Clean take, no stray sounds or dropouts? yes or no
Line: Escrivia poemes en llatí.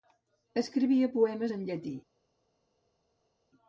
yes